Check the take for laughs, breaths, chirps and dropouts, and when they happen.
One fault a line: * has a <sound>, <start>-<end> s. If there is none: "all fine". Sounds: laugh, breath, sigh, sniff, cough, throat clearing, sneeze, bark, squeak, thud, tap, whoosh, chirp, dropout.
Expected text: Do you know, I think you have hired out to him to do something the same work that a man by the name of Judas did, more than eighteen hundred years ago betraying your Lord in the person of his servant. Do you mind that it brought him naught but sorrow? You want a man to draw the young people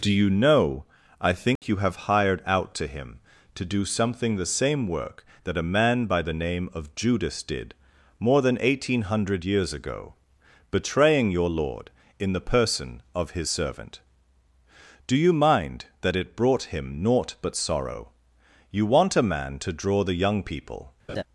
* has a dropout, 1.6-1.6 s
* has a laugh, 21.1-21.2 s